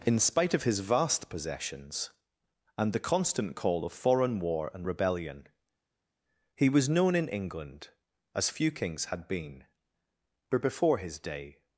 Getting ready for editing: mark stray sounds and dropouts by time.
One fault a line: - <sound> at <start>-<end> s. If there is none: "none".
none